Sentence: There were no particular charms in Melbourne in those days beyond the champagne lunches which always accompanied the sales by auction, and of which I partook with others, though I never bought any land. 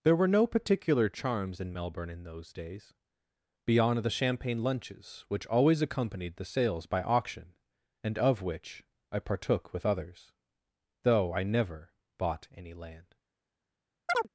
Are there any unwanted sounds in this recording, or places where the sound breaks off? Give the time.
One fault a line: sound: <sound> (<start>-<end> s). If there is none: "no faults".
sound: chirp (14.1-14.3 s)